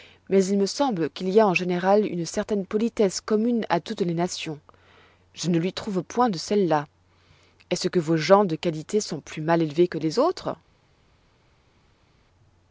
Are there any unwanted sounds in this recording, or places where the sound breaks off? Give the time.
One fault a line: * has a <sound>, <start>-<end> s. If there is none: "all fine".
all fine